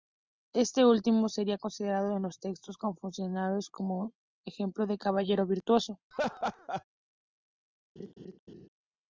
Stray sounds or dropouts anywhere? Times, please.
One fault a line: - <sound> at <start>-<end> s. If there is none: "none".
- laugh at 6.1-6.8 s
- laugh at 8.0-8.7 s